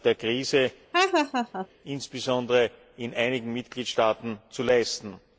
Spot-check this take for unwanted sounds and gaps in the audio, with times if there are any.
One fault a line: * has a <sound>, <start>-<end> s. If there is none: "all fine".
* has a laugh, 0.9-1.7 s